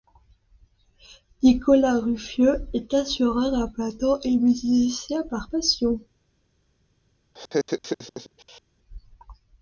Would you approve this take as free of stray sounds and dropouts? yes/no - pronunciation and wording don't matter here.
no